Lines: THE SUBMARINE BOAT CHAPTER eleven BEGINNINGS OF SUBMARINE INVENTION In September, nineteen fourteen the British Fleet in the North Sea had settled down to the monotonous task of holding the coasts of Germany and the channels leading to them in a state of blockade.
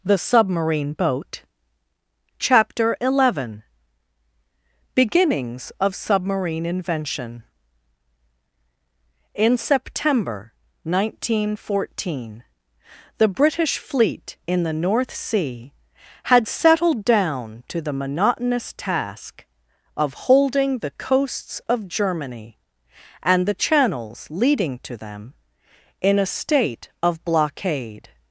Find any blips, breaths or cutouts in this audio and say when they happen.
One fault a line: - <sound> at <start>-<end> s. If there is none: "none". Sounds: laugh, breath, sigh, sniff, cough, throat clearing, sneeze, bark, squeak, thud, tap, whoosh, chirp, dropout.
none